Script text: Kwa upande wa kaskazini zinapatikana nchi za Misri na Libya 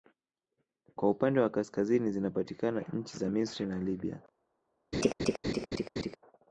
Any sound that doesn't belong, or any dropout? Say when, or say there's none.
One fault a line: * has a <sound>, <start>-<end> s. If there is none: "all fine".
* has a laugh, 4.9-6.2 s